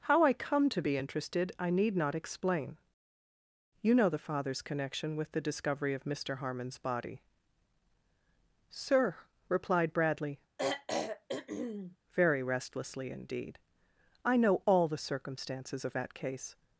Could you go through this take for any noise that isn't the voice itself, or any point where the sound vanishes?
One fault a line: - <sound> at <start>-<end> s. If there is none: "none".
- throat clearing at 10.6-12.0 s